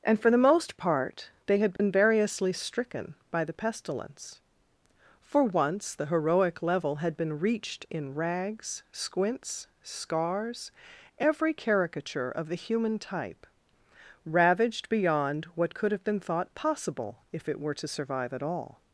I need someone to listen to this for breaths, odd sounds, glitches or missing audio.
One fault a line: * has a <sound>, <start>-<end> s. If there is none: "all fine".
* has a dropout, 1.8-1.8 s